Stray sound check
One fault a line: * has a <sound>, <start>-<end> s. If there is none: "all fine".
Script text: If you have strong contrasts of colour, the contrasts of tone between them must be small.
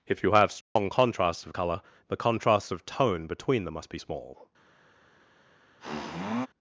* has a dropout, 0.6-0.8 s
* has a sniff, 5.8-6.5 s